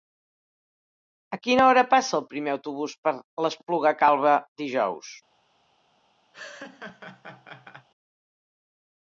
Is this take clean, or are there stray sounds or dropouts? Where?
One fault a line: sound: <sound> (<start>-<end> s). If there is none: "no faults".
sound: laugh (6.3-7.9 s)